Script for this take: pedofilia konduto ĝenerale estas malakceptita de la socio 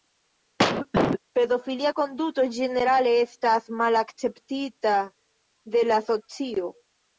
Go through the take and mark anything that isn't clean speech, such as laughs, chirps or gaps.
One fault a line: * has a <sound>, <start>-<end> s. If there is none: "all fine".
* has a cough, 0.6-1.2 s